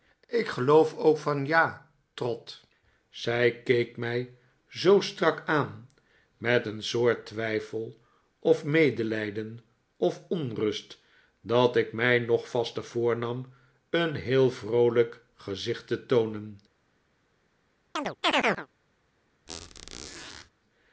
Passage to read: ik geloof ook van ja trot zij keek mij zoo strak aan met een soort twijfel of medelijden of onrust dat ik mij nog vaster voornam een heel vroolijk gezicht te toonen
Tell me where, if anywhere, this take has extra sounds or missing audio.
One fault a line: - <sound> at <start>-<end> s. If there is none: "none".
- chirp at 18.0-18.7 s
- squeak at 19.5-20.5 s